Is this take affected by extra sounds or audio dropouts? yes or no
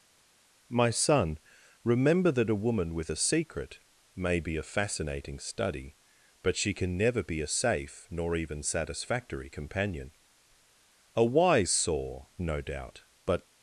no